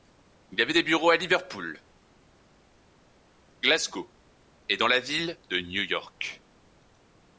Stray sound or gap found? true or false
false